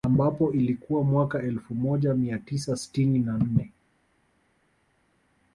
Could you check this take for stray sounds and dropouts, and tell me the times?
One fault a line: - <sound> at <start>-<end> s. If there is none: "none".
none